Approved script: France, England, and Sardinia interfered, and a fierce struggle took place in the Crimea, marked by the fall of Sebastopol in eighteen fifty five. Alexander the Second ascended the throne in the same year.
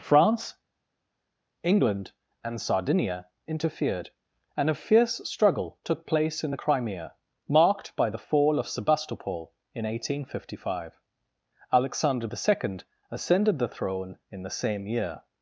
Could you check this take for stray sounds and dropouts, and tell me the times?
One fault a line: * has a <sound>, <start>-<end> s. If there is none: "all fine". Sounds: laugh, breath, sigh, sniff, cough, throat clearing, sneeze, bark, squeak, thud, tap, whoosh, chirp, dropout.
all fine